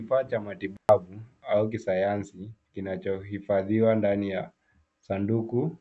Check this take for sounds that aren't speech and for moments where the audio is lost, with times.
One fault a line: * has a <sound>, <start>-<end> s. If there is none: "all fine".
* has a dropout, 0.8-0.9 s